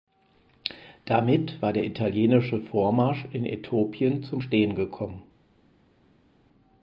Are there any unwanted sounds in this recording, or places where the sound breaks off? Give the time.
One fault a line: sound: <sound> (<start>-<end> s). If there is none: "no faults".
no faults